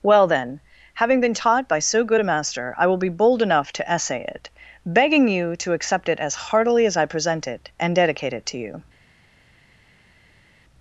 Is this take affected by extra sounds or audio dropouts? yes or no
no